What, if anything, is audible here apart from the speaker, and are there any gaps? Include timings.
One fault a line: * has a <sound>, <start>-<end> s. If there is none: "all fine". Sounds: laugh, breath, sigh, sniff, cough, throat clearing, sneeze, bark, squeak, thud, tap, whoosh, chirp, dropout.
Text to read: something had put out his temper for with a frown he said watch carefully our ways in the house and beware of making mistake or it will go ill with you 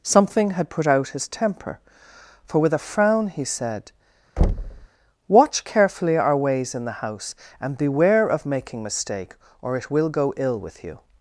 * has a thud, 4.4-4.9 s